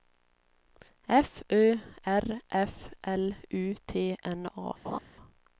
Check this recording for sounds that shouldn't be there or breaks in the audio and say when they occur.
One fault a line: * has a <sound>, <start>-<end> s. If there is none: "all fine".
* has a laugh, 4.8-5.0 s